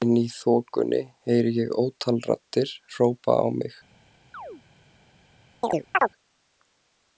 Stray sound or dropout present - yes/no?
yes